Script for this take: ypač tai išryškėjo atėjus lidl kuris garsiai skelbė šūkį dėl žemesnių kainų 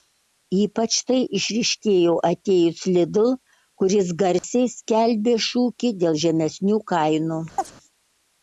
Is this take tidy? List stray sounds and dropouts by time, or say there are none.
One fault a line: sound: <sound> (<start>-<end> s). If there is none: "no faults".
sound: dropout (4.4-4.4 s)
sound: chirp (7.6-7.7 s)